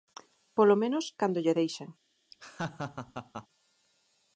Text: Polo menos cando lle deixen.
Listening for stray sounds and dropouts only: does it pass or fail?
fail